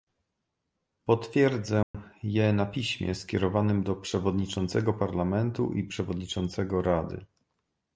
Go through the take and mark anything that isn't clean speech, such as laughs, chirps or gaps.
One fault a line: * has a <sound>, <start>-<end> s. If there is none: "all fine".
* has a dropout, 1.8-1.9 s